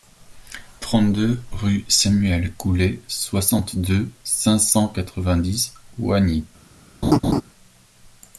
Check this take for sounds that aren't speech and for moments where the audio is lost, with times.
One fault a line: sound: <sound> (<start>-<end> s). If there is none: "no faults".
sound: laugh (7.0-7.4 s)